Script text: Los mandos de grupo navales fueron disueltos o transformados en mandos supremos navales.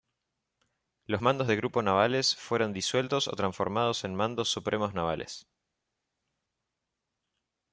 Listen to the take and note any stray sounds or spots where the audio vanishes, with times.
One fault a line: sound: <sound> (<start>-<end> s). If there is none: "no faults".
no faults